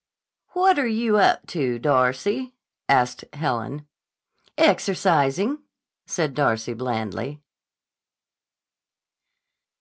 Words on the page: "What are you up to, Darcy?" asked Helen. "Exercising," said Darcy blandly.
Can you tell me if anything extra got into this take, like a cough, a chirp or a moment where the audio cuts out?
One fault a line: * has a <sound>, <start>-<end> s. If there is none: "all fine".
all fine